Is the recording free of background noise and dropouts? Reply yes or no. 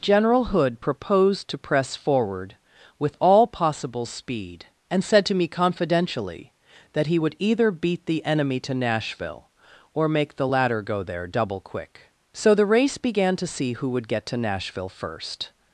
yes